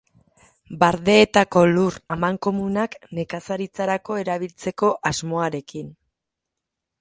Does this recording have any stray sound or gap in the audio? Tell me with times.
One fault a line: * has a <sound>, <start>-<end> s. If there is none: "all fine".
all fine